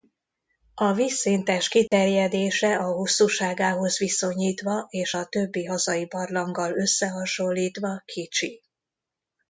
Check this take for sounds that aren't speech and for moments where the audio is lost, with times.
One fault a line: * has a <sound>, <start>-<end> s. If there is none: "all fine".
* has a dropout, 1.9-1.9 s